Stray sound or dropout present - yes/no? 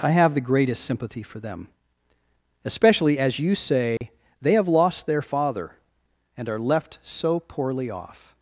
yes